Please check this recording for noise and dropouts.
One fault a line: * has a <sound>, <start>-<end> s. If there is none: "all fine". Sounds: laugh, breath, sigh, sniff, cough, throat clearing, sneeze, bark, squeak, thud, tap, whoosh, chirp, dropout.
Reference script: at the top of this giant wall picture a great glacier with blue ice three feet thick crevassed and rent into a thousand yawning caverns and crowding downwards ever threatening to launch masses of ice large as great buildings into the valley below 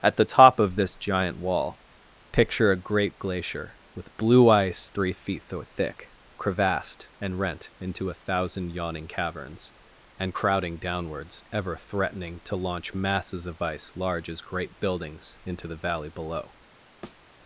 * has a thud, 17.0-17.2 s